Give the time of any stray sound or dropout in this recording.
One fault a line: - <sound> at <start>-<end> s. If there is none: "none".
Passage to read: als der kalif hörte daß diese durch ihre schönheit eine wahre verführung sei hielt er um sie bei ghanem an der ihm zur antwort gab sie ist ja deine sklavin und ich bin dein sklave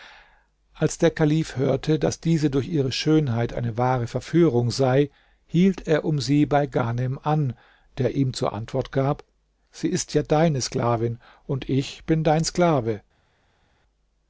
none